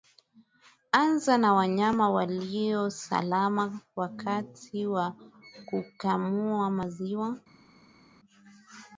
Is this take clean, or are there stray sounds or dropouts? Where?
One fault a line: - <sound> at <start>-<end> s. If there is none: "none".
none